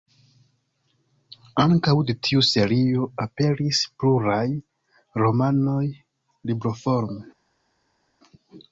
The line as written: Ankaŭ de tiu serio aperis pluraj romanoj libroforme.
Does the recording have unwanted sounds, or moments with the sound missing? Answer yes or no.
no